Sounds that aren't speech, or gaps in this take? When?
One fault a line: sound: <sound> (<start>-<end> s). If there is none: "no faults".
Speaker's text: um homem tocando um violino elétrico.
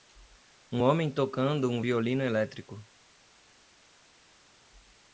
no faults